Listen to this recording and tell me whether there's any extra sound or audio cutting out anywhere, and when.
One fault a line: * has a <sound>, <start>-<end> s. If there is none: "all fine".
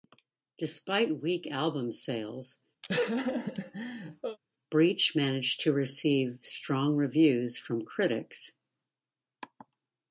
* has a laugh, 2.8-4.4 s